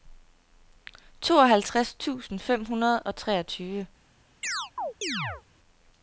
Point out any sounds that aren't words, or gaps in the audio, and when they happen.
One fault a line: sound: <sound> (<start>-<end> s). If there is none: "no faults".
sound: chirp (4.4-5.4 s)